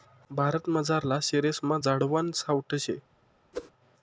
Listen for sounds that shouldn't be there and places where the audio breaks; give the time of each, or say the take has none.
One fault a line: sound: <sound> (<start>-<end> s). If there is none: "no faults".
sound: whoosh (3.5-3.7 s)